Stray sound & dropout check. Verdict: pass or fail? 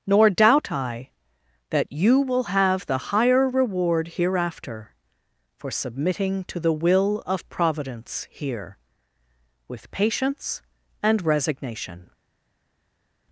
pass